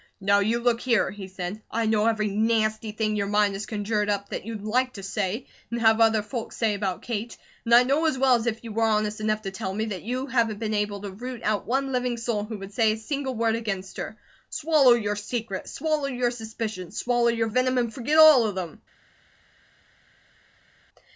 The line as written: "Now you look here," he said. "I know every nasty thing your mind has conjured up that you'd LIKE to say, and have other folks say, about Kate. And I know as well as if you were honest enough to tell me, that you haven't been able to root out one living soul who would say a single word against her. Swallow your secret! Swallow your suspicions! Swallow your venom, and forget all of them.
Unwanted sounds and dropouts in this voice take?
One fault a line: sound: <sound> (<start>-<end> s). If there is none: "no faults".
no faults